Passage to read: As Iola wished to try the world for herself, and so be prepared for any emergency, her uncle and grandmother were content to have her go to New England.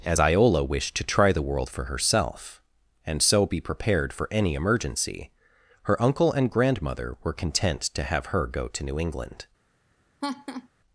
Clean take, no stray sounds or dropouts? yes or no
no